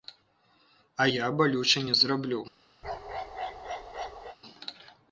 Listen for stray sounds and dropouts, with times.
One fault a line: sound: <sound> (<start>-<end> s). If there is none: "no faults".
sound: bark (2.8-4.4 s)